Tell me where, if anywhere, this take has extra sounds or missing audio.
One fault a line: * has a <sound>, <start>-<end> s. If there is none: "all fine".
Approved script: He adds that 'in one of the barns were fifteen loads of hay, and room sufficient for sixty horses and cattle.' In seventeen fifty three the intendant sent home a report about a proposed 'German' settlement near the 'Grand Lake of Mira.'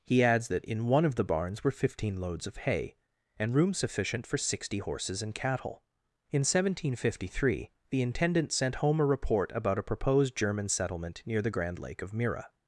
all fine